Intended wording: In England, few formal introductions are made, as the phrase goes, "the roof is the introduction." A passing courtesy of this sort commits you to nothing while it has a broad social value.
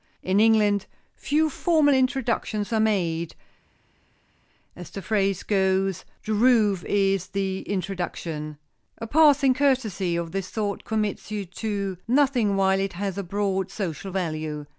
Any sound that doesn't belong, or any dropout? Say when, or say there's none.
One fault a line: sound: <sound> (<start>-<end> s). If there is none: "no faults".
no faults